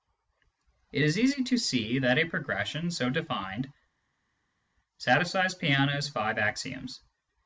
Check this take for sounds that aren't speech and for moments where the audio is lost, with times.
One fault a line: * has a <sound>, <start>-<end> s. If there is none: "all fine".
all fine